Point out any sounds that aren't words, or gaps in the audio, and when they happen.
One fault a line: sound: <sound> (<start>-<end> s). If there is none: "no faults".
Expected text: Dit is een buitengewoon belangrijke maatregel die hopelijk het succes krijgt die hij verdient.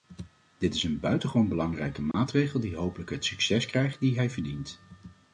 sound: dropout (2.1-2.1 s)